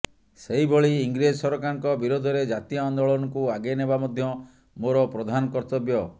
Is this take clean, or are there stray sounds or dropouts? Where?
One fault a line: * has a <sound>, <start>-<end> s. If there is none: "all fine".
all fine